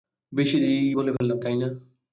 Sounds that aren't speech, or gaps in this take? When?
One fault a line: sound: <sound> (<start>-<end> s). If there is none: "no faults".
sound: dropout (1.2-1.2 s)